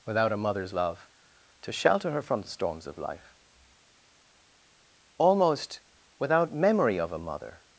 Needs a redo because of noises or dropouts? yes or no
no